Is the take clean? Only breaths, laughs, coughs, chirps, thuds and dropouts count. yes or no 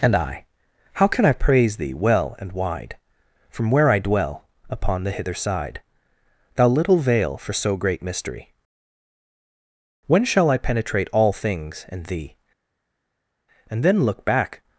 yes